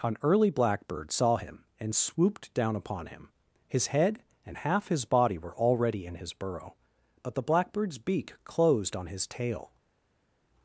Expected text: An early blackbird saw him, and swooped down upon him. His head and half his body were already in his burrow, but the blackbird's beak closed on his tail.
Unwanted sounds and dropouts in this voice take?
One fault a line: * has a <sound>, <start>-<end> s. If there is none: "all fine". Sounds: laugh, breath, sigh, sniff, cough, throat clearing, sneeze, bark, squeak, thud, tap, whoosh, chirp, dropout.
all fine